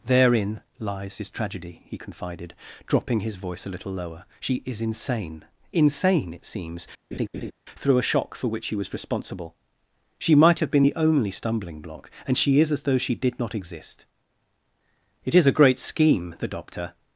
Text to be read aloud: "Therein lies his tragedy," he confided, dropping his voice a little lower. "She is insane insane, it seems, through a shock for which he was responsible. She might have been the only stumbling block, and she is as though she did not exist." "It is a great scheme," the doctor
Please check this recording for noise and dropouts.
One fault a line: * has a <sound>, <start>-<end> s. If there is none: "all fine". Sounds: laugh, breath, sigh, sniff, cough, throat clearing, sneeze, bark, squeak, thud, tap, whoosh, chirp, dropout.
* has a laugh, 7.1-7.5 s